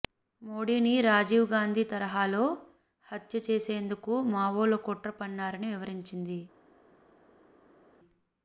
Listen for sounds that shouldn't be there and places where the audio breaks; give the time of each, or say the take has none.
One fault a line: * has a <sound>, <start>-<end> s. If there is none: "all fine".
all fine